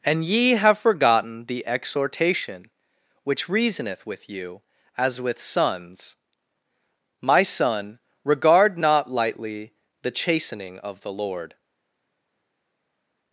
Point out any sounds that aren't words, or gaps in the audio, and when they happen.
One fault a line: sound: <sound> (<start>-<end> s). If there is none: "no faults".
no faults